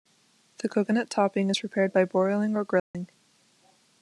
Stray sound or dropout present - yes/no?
yes